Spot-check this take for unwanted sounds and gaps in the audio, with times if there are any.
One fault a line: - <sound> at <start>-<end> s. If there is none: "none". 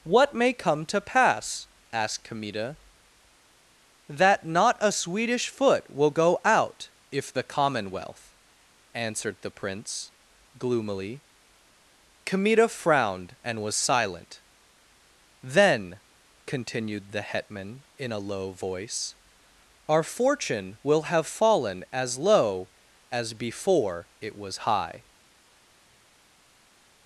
none